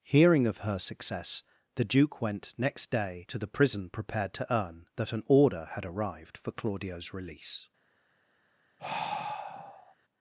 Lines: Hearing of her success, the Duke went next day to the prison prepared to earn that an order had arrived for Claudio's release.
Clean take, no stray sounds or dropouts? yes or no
no